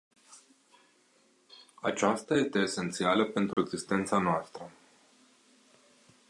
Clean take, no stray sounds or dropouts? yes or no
no